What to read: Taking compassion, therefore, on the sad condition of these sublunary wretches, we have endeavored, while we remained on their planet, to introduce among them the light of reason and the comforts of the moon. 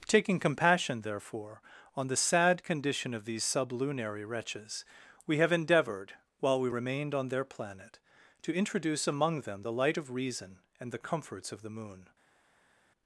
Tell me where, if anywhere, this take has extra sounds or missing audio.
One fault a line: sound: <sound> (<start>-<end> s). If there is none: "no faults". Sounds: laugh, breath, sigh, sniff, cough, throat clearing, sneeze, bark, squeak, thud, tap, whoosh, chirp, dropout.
no faults